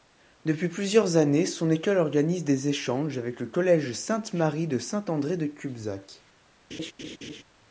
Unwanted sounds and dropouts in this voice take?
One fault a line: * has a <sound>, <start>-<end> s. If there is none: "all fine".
* has a laugh, 6.7-7.4 s